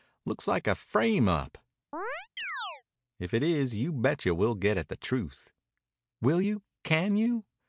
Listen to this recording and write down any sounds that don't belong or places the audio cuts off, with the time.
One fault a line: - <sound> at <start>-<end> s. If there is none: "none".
- chirp at 1.9-2.8 s